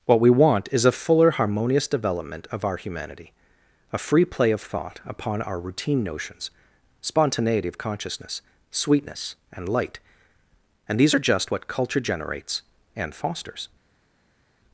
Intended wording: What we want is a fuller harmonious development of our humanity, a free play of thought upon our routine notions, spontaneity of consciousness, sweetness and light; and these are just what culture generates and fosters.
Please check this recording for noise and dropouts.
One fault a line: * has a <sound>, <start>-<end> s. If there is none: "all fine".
all fine